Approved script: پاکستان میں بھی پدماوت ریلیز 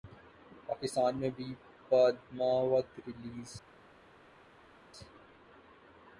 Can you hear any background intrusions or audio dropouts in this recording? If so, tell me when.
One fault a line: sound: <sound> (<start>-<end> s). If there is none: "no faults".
no faults